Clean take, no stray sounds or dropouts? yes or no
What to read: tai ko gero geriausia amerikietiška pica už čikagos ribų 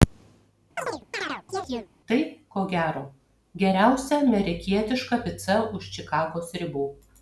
no